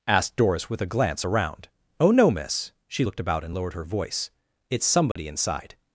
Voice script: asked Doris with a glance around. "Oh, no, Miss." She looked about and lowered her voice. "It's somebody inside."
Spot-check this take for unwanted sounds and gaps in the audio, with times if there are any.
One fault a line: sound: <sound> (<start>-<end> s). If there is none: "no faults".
sound: dropout (5.1-5.2 s)